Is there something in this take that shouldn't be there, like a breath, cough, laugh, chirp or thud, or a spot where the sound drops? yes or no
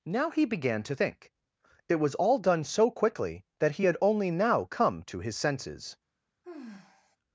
yes